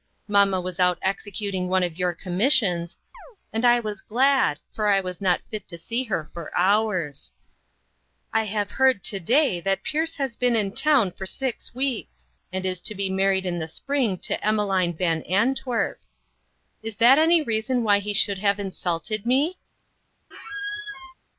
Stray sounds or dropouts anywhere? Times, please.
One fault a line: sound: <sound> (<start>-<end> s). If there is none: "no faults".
sound: chirp (3.1-3.4 s)
sound: squeak (20.3-21.1 s)